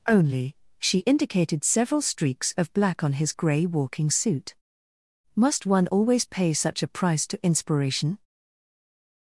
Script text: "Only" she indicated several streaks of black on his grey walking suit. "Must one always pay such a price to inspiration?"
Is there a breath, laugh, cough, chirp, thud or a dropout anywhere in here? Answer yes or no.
no